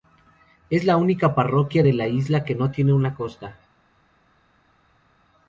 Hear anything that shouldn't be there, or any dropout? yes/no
no